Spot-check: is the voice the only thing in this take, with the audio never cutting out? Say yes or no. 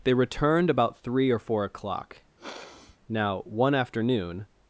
no